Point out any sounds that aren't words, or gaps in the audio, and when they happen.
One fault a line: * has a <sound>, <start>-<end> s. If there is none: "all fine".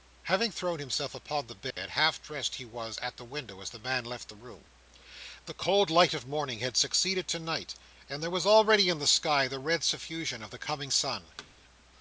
* has a dropout, 1.7-1.8 s
* has a thud, 11.4-11.5 s